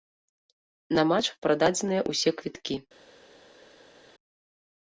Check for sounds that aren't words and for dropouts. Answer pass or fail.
pass